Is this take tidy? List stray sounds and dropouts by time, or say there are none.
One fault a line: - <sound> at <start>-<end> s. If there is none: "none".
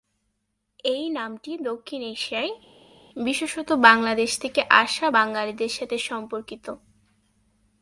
none